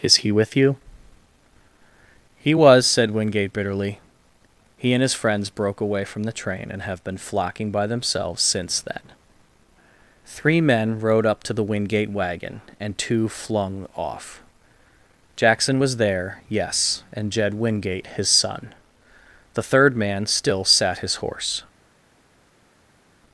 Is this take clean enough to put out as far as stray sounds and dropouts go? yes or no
yes